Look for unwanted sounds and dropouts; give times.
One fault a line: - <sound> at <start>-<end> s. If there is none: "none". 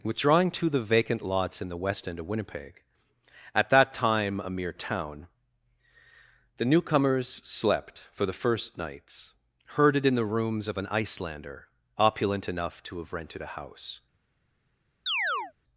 - chirp at 15.1-15.5 s